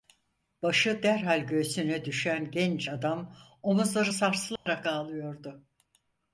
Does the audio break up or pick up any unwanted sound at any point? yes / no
yes